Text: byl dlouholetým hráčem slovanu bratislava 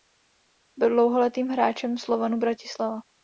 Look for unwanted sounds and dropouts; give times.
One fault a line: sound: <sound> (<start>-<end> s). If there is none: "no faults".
no faults